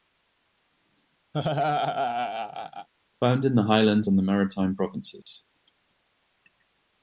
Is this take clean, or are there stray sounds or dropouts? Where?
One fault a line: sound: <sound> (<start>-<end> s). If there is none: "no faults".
sound: laugh (1.3-2.9 s)
sound: dropout (5.2-5.3 s)